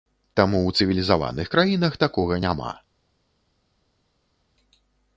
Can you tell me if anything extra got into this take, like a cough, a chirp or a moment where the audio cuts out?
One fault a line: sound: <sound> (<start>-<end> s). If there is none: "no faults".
no faults